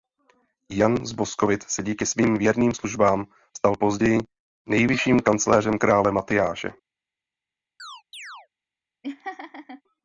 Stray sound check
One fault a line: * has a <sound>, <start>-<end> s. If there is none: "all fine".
* has a chirp, 7.8-8.5 s
* has a laugh, 9.0-9.8 s